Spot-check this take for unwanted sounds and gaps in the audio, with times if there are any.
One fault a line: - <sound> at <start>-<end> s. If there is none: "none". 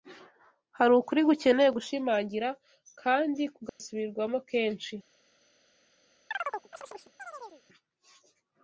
- dropout at 3.7-3.8 s
- chirp at 6.3-7.6 s